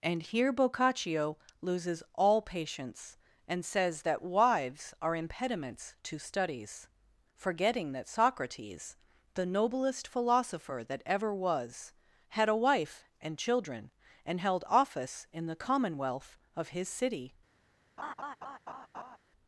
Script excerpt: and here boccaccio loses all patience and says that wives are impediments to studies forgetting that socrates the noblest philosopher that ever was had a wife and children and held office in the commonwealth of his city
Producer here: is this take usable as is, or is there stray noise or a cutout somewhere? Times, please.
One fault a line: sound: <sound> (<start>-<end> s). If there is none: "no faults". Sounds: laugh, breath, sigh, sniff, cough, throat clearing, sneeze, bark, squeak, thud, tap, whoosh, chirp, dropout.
sound: laugh (18.0-19.2 s)